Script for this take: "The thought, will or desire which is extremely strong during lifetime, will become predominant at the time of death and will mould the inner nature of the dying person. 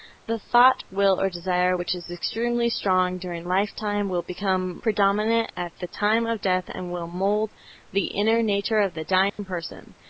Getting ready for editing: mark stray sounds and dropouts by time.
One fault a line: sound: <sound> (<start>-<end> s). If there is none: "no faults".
sound: dropout (9.3-9.4 s)